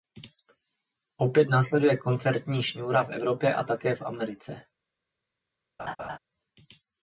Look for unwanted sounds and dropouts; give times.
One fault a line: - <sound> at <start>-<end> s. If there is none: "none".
- laugh at 5.8-6.2 s